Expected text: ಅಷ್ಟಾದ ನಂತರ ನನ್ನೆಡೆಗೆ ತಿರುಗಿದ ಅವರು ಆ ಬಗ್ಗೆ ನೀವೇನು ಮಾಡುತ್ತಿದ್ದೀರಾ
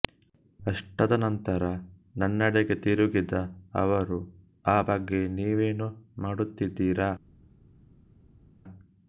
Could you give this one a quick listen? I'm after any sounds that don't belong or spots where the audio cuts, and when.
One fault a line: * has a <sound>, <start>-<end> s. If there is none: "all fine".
all fine